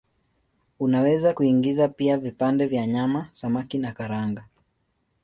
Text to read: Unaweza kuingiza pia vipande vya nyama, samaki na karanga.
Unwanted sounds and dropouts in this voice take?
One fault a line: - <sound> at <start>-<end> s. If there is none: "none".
none